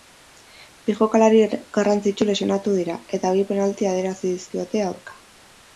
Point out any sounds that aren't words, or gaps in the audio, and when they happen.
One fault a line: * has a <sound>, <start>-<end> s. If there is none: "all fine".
all fine